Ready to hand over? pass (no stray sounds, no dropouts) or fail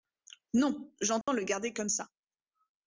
fail